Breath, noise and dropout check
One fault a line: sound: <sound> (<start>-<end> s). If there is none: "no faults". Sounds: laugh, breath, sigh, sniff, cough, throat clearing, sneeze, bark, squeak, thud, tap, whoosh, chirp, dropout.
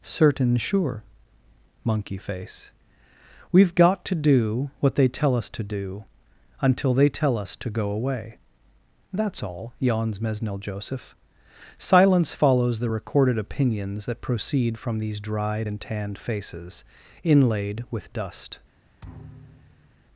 sound: thud (19.0-20.0 s)